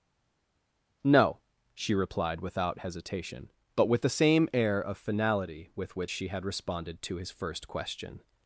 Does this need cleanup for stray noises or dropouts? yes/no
no